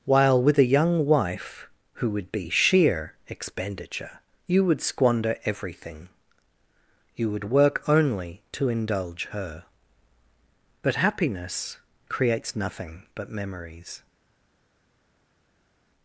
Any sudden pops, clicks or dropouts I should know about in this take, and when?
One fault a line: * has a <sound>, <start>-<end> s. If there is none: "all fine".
all fine